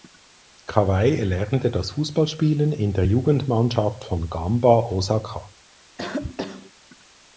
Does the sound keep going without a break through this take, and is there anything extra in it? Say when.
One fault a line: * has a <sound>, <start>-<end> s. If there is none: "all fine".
* has a cough, 6.0-6.7 s